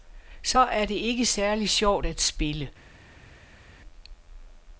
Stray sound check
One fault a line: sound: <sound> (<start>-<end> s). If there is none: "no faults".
no faults